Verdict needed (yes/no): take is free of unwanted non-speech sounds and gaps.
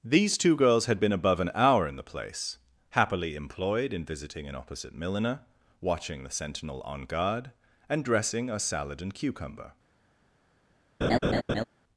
no